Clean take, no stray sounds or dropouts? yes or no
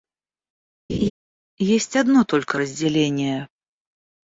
no